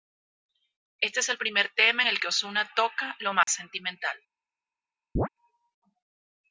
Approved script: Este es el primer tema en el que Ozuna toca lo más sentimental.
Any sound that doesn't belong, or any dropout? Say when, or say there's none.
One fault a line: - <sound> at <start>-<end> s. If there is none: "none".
- dropout at 3.4-3.5 s
- chirp at 5.2-5.3 s